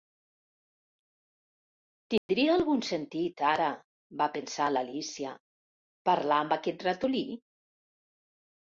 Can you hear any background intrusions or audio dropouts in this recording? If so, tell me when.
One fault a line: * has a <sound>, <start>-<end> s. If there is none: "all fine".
* has a dropout, 2.2-2.3 s